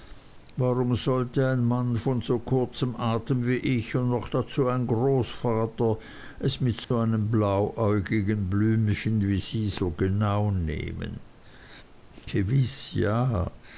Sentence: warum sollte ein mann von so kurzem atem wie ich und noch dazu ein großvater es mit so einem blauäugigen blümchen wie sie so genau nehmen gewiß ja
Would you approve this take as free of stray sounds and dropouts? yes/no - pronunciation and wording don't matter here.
no